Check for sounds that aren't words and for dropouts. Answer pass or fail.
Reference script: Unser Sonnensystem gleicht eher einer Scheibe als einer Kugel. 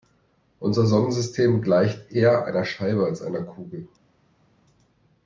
pass